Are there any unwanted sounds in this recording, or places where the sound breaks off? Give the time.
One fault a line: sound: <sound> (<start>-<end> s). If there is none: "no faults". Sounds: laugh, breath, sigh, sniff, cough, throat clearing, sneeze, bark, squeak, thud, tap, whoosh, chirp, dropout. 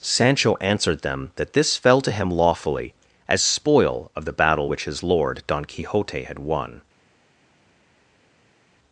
no faults